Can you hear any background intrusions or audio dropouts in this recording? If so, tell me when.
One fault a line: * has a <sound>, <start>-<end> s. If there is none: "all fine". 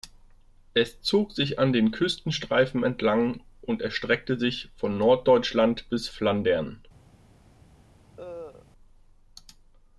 * has a cough, 8.2-8.7 s